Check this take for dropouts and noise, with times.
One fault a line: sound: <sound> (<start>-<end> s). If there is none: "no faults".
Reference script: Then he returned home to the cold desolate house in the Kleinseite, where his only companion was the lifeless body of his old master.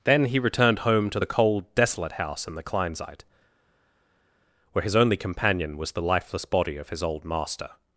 no faults